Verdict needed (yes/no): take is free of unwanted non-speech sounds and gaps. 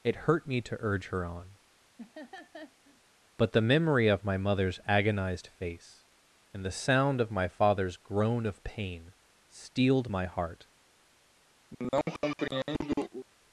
no